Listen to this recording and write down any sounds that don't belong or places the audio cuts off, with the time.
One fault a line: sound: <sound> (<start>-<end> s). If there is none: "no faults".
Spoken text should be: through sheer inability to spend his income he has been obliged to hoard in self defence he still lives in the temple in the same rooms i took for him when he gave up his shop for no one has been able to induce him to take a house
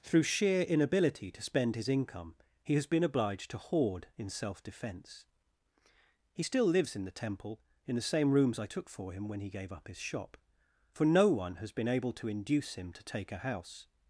no faults